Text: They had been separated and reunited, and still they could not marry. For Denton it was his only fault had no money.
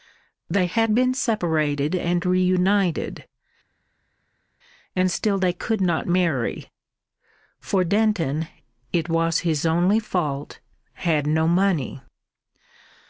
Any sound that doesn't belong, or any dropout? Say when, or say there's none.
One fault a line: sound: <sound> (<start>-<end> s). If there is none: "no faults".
no faults